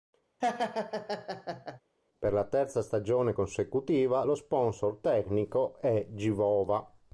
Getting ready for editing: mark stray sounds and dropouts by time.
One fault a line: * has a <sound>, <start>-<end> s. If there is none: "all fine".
* has a laugh, 0.4-1.8 s